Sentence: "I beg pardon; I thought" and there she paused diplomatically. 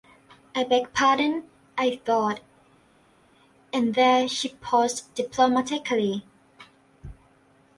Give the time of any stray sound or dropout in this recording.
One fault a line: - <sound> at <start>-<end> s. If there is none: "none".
none